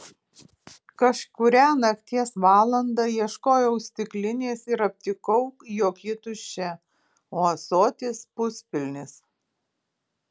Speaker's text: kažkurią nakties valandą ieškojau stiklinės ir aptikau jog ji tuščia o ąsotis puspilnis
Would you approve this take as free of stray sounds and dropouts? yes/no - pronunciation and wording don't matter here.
yes